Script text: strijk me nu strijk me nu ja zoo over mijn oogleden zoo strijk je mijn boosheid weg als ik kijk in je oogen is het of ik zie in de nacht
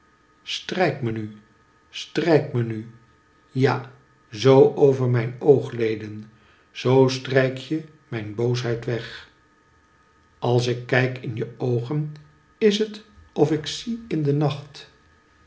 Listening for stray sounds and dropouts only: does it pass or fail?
pass